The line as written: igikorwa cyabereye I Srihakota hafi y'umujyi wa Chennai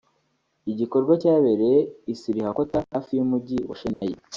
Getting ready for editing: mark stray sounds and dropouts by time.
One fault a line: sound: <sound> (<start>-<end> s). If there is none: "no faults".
sound: dropout (3.9-4.0 s)